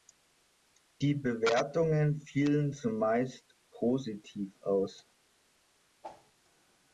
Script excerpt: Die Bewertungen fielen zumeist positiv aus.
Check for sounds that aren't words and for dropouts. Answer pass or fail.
fail